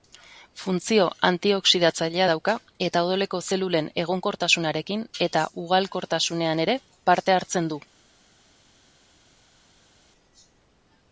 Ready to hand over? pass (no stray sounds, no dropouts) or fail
pass